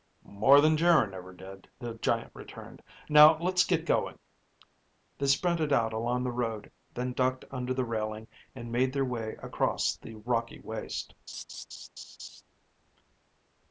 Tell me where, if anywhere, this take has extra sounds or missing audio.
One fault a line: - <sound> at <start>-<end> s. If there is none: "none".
- laugh at 11.3-12.4 s